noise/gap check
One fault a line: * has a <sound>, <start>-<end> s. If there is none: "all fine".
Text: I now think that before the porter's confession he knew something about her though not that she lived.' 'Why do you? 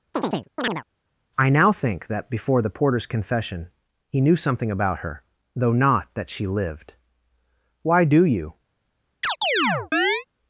* has a chirp, 0.1-0.8 s
* has a chirp, 9.2-10.3 s